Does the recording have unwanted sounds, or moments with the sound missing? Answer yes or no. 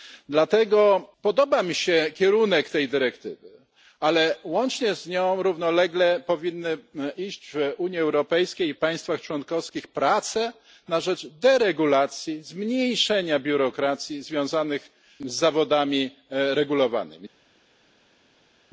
no